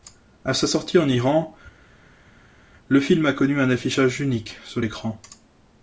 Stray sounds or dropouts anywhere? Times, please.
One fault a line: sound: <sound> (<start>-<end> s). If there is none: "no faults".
no faults